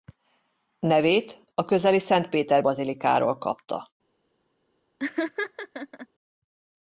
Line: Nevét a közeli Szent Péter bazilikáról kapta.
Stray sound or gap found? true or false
true